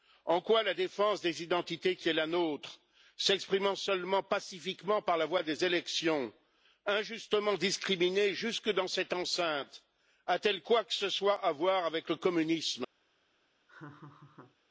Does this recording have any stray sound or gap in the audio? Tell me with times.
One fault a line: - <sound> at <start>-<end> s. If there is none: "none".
- laugh at 13.7-14.6 s